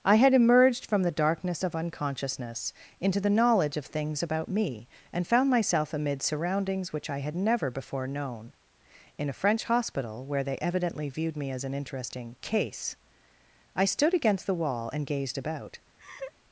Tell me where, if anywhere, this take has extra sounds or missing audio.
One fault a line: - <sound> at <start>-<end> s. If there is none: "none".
- laugh at 16.0-16.3 s